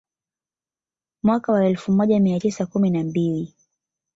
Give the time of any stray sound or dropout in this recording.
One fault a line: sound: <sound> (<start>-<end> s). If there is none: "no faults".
no faults